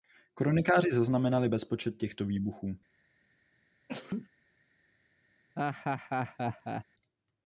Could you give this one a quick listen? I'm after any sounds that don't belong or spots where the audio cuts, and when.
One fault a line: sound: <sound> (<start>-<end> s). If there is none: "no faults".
sound: sneeze (3.9-4.3 s)
sound: laugh (5.6-6.8 s)